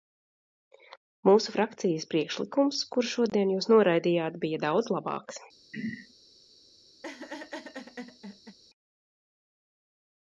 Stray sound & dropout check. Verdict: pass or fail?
fail